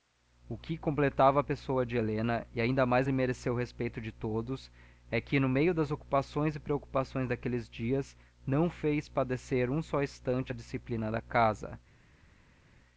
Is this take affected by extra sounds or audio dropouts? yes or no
no